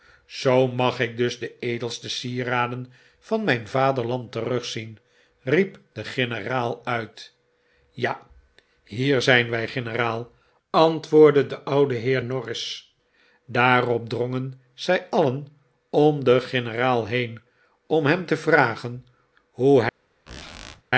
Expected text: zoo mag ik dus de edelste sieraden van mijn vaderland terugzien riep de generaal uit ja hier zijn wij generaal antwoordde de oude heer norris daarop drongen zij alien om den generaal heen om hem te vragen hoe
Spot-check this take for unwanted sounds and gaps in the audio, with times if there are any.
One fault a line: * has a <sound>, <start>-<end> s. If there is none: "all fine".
* has a squeak, 20.3-20.8 s